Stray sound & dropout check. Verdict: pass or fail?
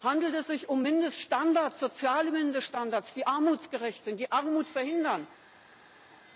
pass